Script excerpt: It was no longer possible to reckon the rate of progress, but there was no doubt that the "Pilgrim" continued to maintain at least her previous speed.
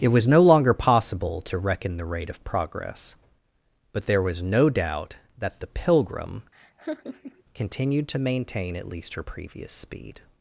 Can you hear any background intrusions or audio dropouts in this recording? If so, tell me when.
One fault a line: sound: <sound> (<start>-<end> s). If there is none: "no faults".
sound: laugh (6.5-7.4 s)